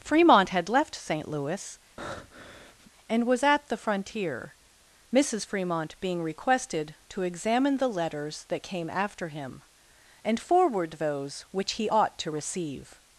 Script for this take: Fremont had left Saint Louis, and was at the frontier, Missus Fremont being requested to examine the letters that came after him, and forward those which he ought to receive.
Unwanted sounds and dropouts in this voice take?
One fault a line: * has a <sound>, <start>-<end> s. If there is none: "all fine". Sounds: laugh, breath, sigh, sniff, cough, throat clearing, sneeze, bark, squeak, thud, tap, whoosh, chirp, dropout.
* has a breath, 2.0-2.9 s